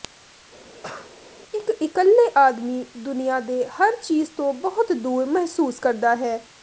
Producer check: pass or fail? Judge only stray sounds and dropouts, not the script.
fail